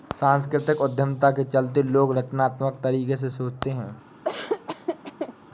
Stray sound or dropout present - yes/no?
yes